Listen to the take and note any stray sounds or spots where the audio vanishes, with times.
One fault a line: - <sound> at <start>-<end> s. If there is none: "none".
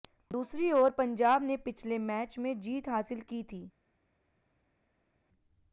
none